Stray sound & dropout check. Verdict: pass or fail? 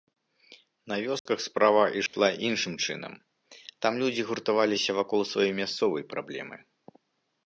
fail